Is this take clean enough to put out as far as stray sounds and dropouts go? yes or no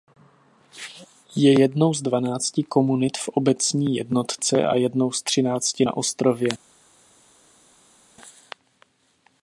yes